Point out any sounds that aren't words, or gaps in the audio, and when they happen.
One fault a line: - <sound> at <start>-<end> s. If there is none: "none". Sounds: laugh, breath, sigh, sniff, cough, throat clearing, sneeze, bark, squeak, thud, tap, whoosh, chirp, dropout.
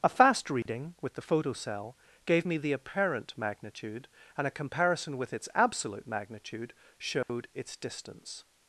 - dropout at 0.6-0.7 s
- dropout at 7.2-7.3 s